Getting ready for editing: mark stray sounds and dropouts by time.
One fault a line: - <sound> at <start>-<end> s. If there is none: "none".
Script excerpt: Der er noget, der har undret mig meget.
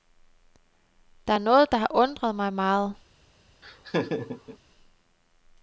- laugh at 3.6-4.6 s